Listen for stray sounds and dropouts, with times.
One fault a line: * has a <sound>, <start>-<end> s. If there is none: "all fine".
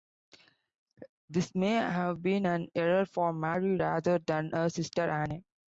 all fine